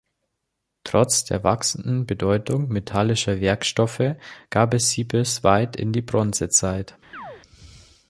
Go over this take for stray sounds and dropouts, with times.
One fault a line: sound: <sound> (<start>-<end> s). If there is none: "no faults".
sound: chirp (7.1-7.4 s)